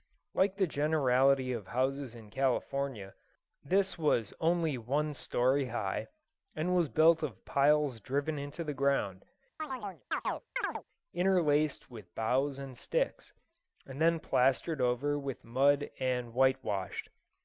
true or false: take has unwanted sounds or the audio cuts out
true